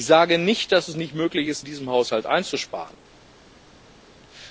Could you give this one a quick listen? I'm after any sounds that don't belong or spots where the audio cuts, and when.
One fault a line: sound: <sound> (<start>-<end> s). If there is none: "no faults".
no faults